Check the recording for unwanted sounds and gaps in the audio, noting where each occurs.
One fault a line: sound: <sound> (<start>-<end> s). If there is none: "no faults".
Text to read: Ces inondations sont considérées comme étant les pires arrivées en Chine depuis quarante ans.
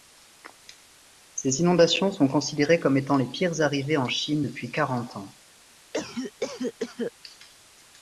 sound: cough (5.9-7.1 s)